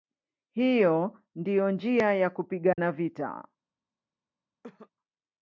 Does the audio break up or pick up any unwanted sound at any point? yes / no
yes